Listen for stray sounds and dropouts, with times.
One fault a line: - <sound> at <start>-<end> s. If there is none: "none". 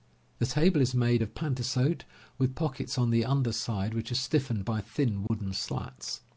- dropout at 5.3-5.3 s